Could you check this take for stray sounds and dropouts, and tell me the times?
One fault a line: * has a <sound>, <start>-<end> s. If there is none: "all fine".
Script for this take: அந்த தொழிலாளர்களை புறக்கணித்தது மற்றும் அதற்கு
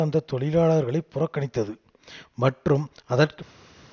all fine